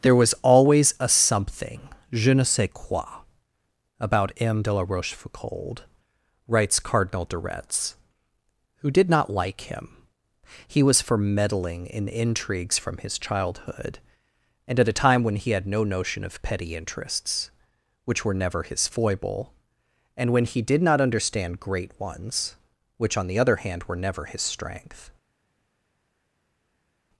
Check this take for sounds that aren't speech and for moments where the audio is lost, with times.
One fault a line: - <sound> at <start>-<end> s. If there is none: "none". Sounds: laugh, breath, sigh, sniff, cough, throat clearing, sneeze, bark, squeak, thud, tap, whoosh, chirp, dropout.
none